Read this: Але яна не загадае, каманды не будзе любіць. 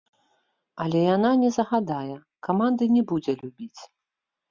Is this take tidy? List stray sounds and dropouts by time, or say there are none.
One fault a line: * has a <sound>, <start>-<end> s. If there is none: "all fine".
all fine